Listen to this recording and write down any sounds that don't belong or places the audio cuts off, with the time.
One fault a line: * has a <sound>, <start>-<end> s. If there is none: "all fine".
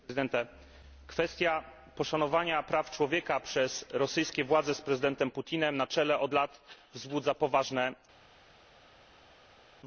all fine